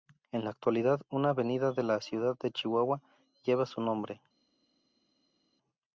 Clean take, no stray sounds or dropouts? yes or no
yes